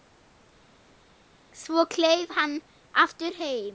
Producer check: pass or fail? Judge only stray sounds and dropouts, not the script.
pass